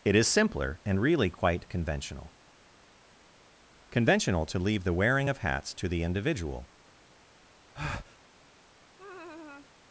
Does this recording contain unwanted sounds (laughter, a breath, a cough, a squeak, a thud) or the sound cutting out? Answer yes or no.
yes